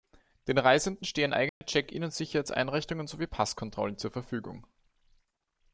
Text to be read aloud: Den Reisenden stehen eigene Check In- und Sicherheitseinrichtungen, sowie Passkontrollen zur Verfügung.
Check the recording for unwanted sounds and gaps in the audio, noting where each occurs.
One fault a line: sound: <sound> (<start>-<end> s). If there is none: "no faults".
sound: dropout (1.5-1.6 s)